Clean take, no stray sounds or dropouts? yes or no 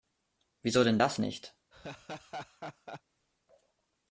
no